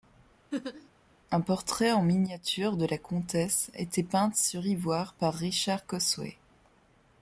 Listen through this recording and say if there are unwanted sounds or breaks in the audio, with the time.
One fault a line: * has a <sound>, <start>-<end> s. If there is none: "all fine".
* has a laugh, 0.5-0.9 s